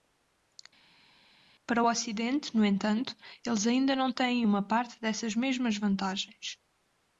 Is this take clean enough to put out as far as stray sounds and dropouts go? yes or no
yes